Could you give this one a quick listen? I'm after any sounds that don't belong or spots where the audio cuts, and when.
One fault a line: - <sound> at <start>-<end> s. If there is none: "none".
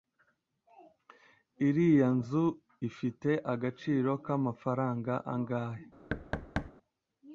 - thud at 6.1-6.7 s